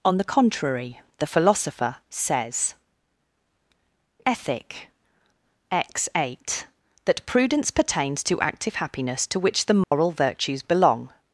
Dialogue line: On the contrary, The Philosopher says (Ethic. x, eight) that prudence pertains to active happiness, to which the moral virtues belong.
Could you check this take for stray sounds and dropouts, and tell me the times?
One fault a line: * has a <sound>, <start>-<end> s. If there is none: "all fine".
* has a dropout, 9.8-9.9 s